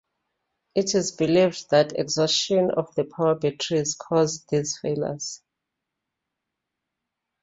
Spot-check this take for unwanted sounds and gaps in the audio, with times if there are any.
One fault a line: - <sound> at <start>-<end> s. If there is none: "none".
none